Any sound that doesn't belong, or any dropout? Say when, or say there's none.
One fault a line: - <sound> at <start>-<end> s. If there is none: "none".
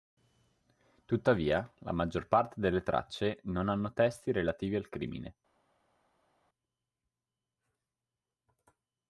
none